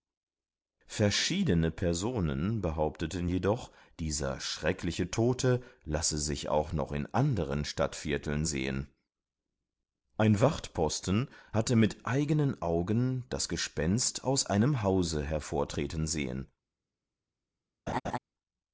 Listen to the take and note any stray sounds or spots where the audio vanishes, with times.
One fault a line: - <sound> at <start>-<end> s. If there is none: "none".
- laugh at 17.9-18.2 s